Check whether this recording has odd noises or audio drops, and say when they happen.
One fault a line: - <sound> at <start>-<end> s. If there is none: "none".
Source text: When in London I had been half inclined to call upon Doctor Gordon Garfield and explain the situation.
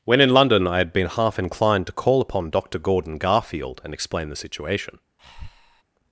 - breath at 5.2-5.8 s